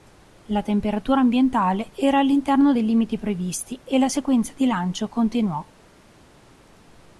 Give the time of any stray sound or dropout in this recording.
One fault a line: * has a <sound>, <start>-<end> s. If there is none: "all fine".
all fine